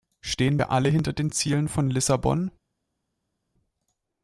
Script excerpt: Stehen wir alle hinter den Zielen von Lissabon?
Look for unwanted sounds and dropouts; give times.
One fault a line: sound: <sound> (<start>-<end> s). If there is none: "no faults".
no faults